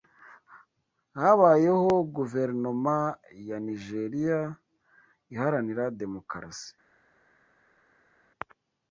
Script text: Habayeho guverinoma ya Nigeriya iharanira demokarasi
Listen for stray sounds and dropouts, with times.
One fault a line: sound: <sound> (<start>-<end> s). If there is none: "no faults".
no faults